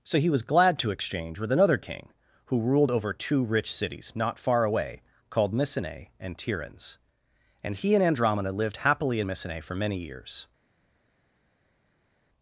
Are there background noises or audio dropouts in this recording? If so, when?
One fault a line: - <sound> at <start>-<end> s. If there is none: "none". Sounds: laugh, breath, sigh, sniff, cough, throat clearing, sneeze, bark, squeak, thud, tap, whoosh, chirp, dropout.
none